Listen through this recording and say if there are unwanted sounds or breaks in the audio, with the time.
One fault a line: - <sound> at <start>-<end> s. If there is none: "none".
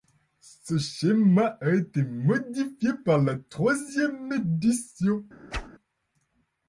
- whoosh at 5.5-5.7 s